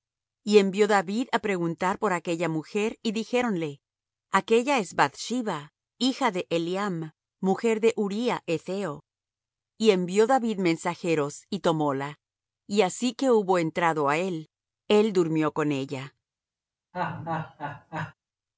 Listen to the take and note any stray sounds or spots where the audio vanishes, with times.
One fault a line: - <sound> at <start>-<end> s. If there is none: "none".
- laugh at 16.9-18.1 s